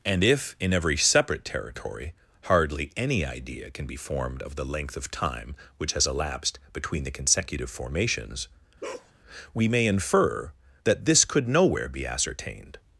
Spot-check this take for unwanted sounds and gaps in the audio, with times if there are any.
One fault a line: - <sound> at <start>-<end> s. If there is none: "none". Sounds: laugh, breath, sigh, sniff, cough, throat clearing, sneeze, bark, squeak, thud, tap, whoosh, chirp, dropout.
- bark at 8.8-9.1 s